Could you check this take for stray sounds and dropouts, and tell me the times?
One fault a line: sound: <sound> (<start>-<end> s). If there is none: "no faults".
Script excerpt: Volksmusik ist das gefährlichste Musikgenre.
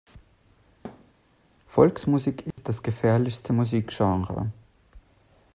sound: thud (0.8-1.1 s)
sound: dropout (2.5-2.6 s)